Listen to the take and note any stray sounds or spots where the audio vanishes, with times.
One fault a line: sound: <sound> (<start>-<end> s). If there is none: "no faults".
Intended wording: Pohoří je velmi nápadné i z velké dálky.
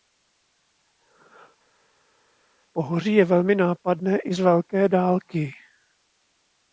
no faults